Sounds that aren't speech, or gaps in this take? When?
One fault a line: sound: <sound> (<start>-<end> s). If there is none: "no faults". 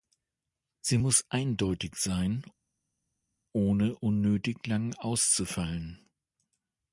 no faults